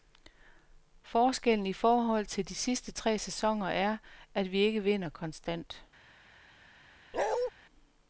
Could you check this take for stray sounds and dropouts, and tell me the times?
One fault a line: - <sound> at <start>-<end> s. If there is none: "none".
- bark at 7.1-7.5 s